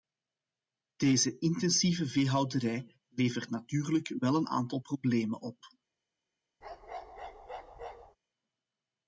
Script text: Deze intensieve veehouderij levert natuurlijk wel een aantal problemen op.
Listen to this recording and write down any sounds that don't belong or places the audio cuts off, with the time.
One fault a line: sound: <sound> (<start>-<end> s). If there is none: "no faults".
sound: bark (6.6-8.2 s)